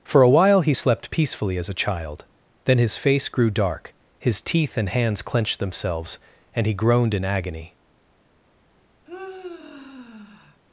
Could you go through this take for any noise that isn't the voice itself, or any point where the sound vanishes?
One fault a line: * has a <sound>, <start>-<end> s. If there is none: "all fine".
* has a sigh, 9.1-10.6 s